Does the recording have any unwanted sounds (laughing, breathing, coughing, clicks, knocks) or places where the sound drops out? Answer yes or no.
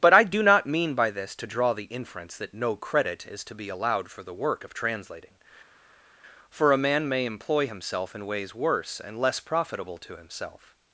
no